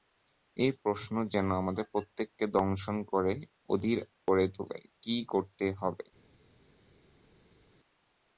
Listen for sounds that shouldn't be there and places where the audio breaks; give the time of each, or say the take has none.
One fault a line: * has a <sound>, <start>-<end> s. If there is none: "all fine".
all fine